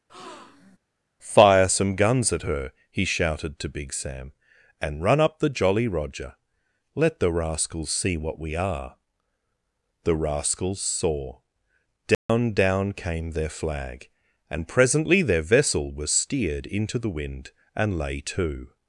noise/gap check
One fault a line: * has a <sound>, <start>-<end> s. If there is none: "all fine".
* has a breath, 0.1-0.8 s
* has a dropout, 12.1-12.3 s